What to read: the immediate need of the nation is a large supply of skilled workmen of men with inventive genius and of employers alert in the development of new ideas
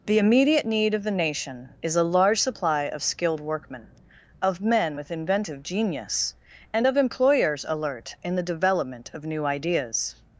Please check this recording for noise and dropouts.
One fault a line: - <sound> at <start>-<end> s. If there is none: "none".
none